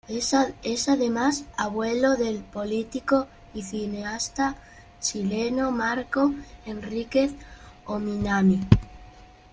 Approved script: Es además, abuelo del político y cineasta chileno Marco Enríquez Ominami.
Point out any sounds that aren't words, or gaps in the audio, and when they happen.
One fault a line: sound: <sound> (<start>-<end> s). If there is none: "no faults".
no faults